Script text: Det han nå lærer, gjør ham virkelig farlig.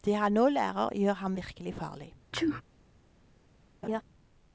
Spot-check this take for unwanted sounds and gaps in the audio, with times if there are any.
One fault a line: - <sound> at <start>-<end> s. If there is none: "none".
- sneeze at 2.3-2.6 s
- laugh at 3.8-4.0 s